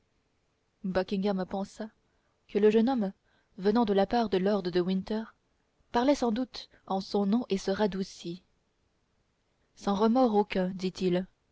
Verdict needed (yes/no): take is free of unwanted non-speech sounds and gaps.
yes